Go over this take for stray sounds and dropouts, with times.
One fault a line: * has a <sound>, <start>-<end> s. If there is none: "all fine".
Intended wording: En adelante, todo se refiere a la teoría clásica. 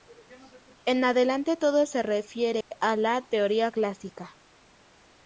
* has a dropout, 2.6-2.7 s